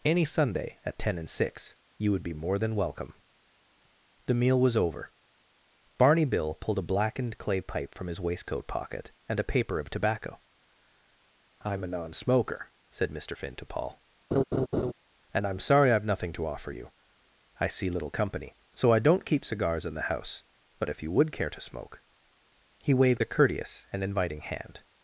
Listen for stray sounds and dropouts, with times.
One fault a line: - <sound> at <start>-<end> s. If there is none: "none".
- laugh at 14.3-14.9 s